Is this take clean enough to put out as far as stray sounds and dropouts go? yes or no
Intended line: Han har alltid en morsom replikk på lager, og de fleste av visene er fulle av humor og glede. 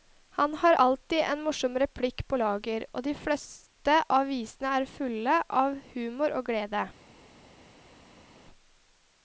yes